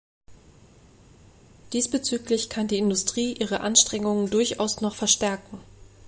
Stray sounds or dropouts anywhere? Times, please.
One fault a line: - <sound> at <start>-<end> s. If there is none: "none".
none